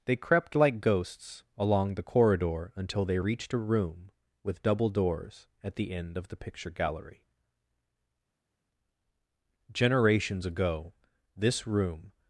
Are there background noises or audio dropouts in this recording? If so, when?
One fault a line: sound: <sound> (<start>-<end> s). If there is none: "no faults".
no faults